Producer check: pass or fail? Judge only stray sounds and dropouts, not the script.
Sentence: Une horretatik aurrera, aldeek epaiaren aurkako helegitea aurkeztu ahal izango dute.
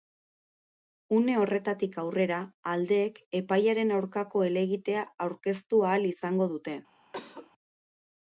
fail